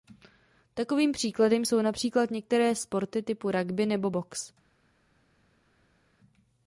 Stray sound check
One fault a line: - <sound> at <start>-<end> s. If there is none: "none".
none